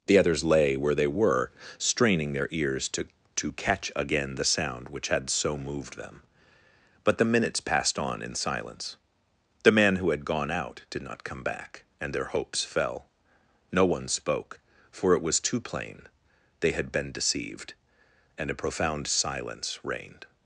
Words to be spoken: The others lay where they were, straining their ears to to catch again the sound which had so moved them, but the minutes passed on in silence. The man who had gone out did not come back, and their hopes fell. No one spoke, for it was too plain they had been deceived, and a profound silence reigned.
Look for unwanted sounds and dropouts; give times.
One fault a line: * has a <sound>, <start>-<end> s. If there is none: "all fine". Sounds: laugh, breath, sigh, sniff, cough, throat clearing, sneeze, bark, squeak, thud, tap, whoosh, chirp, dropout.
all fine